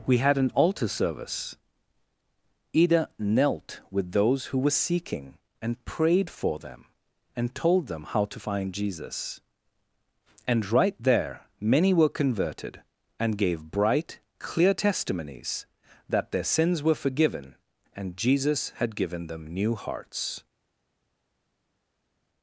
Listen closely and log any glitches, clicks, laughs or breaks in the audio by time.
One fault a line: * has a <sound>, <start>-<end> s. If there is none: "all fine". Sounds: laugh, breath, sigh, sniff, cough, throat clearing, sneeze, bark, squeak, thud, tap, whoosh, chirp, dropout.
all fine